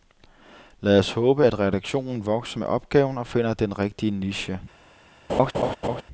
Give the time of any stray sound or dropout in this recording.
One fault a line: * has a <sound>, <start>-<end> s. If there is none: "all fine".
* has a laugh, 5.3-6.0 s